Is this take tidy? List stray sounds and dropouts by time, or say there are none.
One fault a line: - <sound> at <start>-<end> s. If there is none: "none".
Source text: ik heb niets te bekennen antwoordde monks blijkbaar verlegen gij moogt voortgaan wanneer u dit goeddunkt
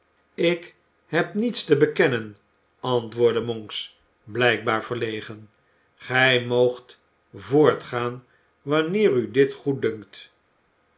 none